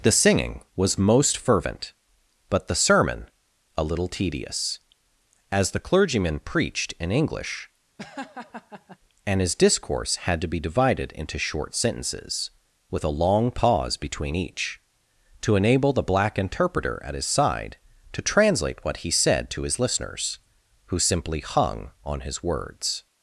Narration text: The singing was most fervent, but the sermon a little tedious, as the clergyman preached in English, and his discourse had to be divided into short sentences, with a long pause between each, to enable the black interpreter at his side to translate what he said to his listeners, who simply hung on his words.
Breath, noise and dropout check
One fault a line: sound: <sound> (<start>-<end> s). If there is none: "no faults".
sound: laugh (8.0-9.0 s)